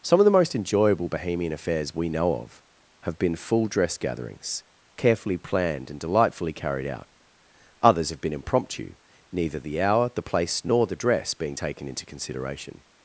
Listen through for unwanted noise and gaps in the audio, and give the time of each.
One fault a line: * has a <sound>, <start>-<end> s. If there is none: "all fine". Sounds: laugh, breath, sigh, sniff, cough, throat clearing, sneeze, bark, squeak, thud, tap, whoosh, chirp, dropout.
all fine